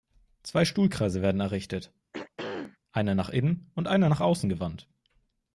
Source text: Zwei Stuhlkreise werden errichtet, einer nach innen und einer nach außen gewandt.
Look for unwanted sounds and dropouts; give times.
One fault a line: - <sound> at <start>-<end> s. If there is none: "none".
- throat clearing at 2.1-2.8 s